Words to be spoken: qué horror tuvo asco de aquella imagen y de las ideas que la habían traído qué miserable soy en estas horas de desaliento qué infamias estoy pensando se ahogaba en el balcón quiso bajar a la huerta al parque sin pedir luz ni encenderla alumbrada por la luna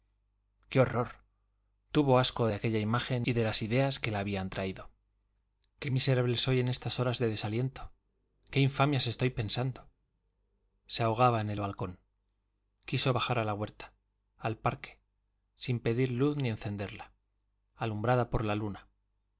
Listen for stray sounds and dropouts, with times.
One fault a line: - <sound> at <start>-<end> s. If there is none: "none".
none